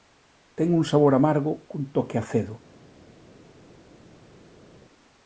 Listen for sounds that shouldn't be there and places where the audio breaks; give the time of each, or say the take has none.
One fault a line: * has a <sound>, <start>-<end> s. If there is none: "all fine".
all fine